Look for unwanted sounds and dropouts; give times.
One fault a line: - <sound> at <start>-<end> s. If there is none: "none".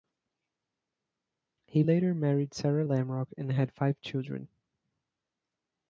none